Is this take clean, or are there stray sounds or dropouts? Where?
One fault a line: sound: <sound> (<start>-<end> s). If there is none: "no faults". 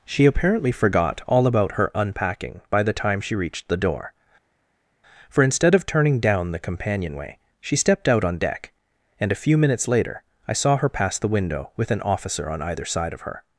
no faults